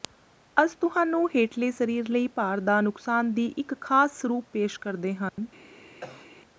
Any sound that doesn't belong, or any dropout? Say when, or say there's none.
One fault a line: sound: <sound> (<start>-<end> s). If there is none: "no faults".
sound: dropout (5.3-5.4 s)
sound: cough (6.0-6.3 s)